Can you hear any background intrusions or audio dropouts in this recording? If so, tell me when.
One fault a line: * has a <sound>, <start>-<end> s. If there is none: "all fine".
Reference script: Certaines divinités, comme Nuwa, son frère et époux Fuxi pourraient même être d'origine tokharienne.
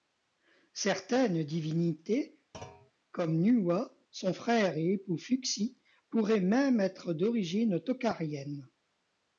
* has a thud, 2.5-2.9 s